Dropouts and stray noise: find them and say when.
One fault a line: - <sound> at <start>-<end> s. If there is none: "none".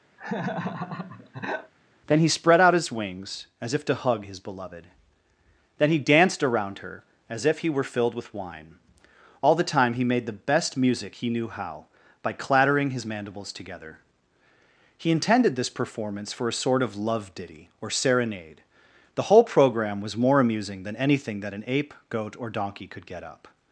- laugh at 0.2-1.7 s